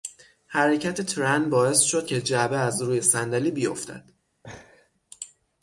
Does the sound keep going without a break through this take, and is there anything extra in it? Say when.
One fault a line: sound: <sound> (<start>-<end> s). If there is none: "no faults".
sound: laugh (4.4-4.9 s)